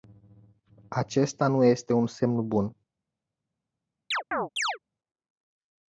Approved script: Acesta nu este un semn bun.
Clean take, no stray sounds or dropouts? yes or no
no